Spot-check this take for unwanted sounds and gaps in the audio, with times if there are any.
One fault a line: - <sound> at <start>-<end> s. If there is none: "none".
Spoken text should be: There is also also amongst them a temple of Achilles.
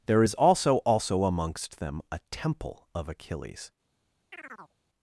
- chirp at 4.3-4.7 s